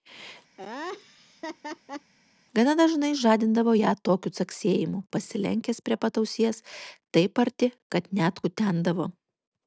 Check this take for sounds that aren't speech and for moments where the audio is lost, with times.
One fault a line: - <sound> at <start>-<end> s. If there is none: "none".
- laugh at 0.6-2.1 s